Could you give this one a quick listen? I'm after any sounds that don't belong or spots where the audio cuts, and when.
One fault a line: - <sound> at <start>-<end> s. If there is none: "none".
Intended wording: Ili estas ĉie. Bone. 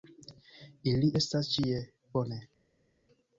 none